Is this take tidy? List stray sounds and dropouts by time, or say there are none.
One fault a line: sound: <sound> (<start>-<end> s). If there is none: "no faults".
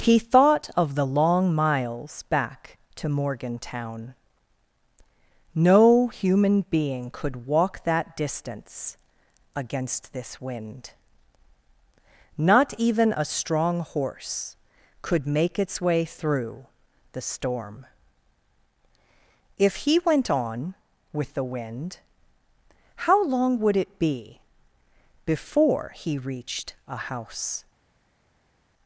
no faults